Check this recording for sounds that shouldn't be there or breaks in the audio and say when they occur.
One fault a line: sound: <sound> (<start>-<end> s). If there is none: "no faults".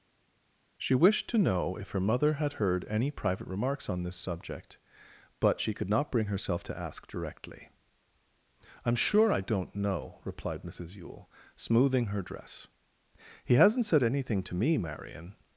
no faults